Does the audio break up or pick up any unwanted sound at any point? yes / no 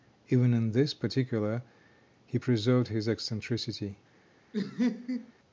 yes